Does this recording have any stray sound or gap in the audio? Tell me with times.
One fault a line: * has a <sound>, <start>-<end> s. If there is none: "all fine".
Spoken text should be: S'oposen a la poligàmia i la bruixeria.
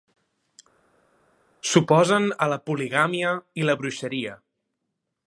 all fine